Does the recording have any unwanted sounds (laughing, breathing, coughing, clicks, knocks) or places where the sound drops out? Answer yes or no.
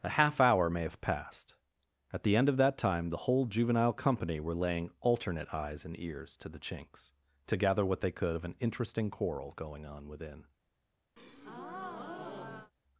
yes